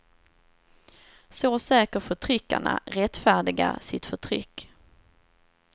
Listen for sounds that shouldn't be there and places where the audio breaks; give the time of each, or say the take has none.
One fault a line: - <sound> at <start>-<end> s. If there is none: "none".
none